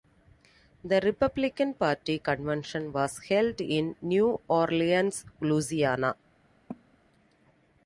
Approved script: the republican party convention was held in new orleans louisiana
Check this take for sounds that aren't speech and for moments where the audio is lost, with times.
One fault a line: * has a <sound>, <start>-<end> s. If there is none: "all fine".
* has a cough, 6.7-7.0 s